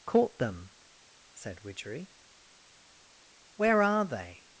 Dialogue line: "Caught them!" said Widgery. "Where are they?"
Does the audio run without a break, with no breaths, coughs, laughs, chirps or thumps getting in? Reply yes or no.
yes